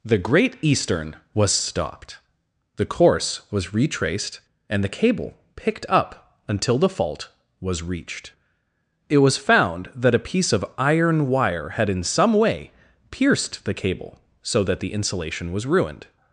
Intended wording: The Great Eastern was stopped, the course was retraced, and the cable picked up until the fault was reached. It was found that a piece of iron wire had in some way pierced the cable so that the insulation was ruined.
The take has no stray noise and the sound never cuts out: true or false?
true